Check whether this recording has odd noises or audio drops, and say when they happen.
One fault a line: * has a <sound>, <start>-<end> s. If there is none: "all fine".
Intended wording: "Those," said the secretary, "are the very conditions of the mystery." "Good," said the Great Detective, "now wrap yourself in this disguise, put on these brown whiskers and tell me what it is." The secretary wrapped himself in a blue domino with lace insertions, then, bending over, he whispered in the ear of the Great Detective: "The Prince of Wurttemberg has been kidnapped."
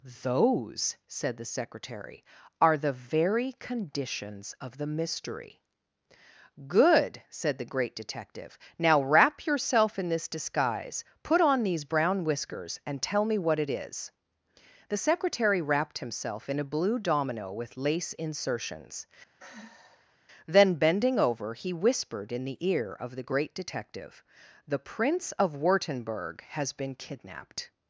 * has a sigh, 19.4-20.2 s